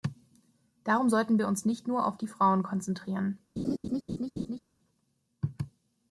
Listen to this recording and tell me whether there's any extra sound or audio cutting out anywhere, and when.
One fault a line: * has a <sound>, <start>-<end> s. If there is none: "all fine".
* has a laugh, 3.6-4.6 s